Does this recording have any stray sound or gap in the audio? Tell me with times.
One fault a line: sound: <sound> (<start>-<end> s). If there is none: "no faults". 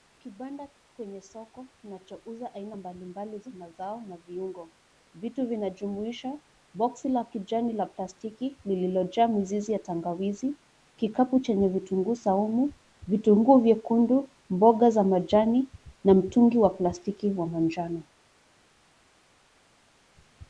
no faults